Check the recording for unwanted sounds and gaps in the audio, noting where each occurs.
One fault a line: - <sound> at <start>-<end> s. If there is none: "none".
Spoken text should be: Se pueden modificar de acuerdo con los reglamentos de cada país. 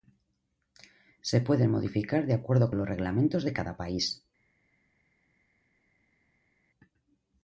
none